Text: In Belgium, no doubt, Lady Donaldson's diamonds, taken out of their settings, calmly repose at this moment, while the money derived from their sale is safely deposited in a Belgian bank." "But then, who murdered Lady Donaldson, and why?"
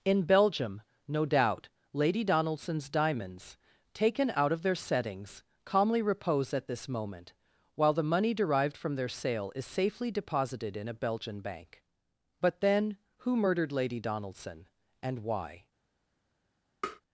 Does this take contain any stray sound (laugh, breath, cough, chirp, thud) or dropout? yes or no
yes